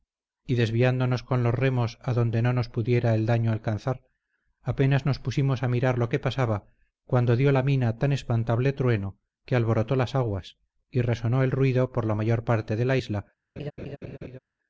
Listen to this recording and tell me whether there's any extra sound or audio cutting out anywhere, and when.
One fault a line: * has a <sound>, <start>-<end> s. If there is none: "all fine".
* has a laugh, 13.6-14.4 s